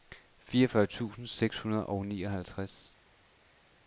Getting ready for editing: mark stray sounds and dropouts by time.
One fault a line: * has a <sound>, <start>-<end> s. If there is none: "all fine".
all fine